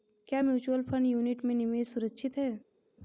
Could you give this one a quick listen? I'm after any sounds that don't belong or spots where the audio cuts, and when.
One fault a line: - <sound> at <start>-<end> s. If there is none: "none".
none